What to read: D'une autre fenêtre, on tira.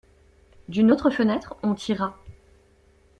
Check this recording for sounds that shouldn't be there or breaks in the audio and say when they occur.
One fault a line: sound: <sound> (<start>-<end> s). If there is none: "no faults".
no faults